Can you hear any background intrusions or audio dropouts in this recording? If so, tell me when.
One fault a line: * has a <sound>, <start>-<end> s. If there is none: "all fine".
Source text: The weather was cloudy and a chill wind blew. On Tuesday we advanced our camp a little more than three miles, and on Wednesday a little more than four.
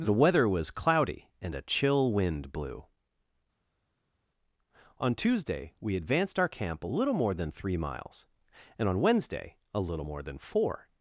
all fine